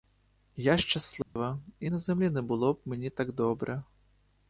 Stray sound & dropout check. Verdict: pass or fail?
fail